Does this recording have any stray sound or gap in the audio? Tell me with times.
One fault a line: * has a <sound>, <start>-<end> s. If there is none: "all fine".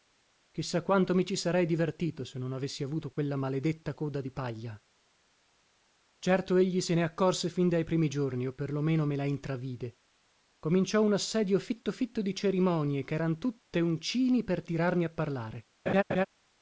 * has a laugh, 15.9-16.3 s